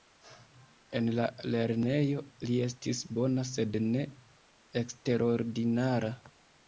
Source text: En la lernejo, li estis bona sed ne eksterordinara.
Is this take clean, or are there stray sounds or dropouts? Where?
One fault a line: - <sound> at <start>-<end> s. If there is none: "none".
none